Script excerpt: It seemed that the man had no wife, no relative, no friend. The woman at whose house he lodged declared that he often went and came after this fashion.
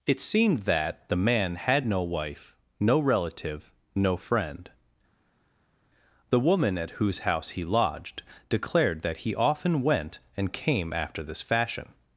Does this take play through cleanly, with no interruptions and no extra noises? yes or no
yes